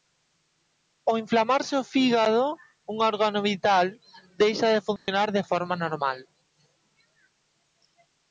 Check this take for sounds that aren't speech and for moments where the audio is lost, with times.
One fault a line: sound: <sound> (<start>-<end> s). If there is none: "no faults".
sound: dropout (5.0-5.1 s)